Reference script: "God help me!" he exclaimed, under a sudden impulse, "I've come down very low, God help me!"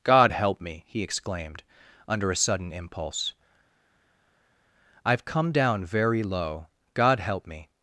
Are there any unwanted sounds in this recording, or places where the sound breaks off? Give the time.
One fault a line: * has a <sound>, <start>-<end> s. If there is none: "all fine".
all fine